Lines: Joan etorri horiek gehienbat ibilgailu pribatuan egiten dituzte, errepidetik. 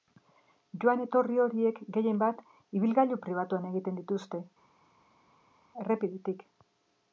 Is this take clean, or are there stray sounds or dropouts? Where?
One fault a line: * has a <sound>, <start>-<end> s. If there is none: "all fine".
all fine